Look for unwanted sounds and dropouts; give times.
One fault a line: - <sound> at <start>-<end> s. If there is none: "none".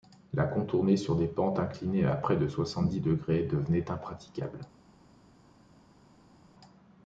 none